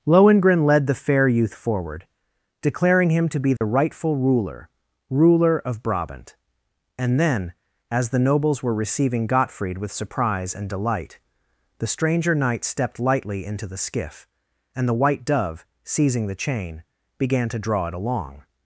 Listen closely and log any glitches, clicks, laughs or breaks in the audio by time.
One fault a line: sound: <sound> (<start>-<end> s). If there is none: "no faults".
sound: dropout (3.6-3.6 s)